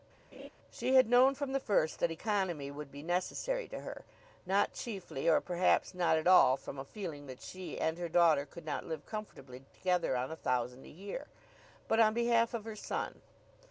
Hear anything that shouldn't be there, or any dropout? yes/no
yes